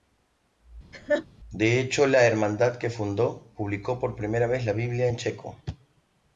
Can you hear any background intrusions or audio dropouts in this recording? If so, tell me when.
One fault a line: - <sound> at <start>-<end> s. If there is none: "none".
- laugh at 0.9-1.3 s